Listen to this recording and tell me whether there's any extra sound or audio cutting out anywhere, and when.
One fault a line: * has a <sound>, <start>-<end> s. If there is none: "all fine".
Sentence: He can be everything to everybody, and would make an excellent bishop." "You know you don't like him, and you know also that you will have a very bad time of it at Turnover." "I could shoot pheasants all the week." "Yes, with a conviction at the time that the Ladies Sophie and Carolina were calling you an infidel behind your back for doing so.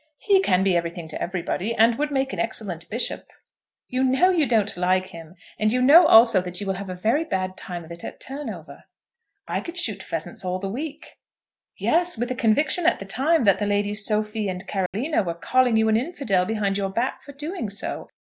* has a dropout, 14.9-14.9 s